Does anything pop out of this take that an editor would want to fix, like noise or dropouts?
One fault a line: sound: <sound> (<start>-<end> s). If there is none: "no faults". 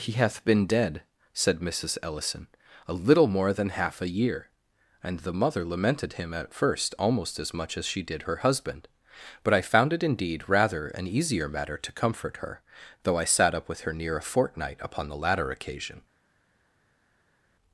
no faults